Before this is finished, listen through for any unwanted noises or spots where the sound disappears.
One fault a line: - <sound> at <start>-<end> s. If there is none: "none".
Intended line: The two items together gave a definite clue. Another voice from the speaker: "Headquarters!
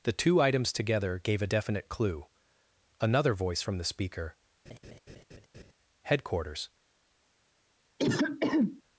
- laugh at 4.7-5.7 s
- throat clearing at 8.0-8.8 s